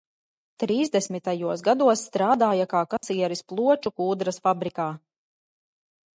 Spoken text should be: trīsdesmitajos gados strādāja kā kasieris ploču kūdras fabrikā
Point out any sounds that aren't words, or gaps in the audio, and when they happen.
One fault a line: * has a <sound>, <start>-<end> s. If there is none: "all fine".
* has a dropout, 3.0-3.0 s